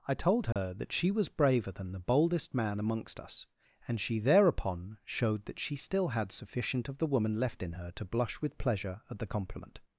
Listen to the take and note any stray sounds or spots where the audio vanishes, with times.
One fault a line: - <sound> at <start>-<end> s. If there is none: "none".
- dropout at 0.5-0.6 s